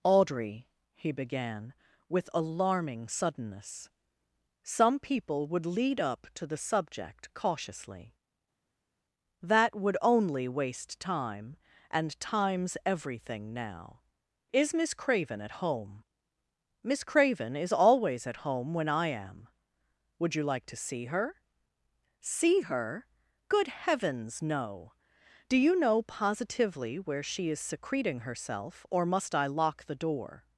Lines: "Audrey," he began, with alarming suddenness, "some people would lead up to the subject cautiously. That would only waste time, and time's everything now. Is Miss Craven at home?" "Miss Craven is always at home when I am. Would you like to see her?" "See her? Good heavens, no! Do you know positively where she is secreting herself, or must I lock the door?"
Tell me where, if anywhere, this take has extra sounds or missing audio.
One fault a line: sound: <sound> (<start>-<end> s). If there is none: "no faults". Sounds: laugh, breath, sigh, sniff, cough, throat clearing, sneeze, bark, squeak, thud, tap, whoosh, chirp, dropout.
no faults